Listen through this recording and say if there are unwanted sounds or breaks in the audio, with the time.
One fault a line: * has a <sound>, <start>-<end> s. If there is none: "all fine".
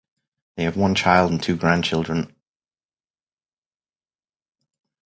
all fine